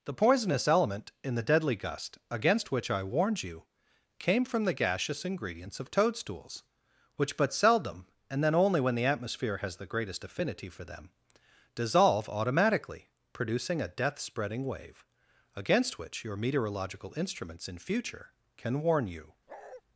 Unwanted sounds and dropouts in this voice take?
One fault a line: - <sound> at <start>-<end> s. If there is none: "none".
- bark at 19.5-19.8 s